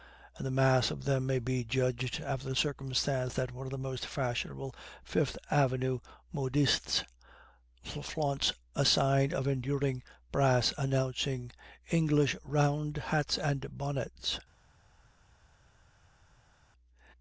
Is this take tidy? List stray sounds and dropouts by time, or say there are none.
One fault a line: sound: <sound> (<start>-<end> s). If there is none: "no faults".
no faults